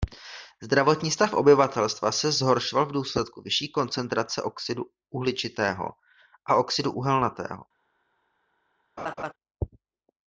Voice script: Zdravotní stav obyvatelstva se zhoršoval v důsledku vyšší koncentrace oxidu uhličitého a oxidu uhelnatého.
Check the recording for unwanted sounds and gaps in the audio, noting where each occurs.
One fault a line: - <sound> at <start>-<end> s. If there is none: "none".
- laugh at 9.0-9.3 s